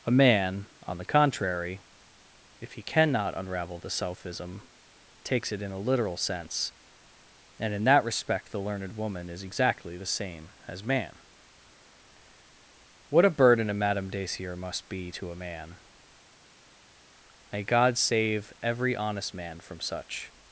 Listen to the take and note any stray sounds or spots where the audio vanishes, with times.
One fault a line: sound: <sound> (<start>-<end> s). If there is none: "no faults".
no faults